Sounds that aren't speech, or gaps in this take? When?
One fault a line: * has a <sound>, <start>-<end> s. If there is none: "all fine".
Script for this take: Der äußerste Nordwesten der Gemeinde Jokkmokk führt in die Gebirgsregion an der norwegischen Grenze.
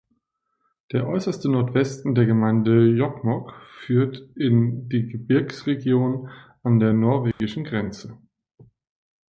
* has a dropout, 7.3-7.4 s